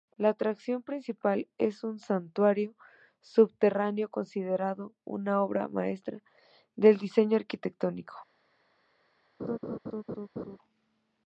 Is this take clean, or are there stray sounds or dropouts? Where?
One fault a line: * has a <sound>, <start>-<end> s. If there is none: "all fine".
* has a laugh, 9.4-10.6 s